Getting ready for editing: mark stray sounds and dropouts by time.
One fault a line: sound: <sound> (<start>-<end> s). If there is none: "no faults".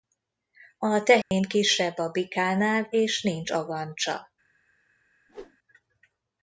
sound: dropout (1.2-1.3 s)
sound: whoosh (5.3-5.6 s)